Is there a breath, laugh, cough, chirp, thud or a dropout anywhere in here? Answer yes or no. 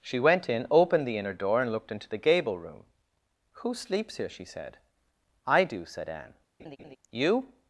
yes